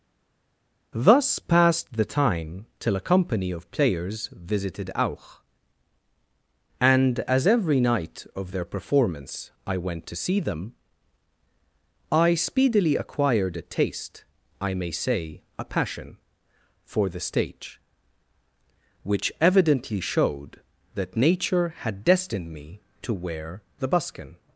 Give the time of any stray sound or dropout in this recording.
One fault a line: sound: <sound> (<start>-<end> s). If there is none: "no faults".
no faults